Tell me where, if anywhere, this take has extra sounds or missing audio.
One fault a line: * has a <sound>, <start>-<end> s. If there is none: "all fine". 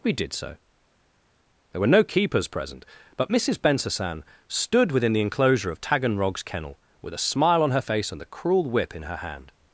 all fine